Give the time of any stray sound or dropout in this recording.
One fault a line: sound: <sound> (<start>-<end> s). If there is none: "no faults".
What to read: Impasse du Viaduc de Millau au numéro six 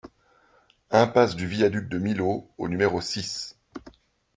no faults